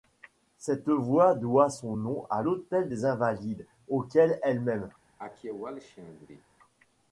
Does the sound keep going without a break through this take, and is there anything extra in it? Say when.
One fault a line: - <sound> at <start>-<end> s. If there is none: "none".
- cough at 5.2-6.4 s